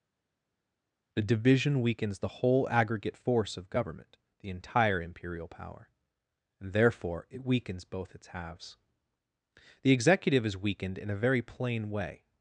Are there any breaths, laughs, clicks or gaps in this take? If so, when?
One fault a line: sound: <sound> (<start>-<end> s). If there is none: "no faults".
no faults